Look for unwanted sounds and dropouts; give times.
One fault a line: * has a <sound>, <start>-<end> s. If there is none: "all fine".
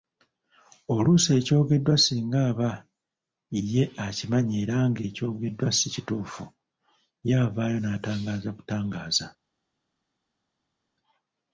all fine